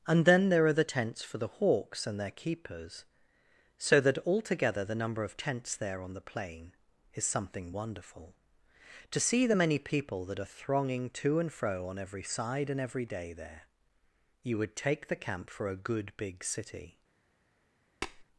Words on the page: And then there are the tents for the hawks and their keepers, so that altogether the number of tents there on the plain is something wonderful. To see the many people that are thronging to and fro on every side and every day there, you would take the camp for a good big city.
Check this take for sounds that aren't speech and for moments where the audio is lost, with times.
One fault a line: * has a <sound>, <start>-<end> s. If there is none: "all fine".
* has a tap, 18.0-18.2 s